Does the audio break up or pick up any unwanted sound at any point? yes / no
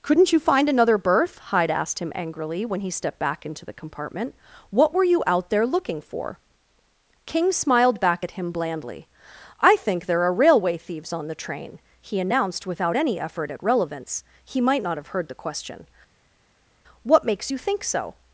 no